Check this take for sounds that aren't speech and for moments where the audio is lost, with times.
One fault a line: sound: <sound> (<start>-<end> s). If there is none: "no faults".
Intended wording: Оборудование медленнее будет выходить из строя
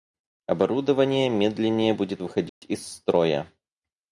sound: dropout (2.5-2.6 s)